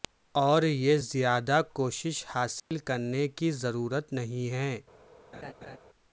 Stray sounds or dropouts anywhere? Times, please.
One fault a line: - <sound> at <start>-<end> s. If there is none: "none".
- dropout at 2.6-2.7 s
- laugh at 5.3-5.8 s